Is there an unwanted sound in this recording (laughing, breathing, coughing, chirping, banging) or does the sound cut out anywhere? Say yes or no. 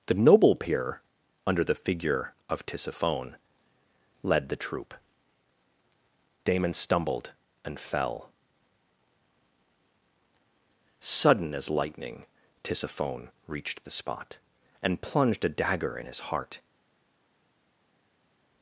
no